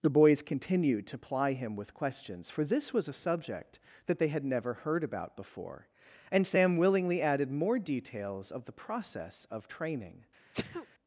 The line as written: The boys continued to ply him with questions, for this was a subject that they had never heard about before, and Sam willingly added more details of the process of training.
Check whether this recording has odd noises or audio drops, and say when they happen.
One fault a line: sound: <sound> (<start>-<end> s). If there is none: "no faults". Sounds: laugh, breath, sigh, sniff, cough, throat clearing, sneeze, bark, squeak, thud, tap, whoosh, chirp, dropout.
sound: sneeze (10.5-10.9 s)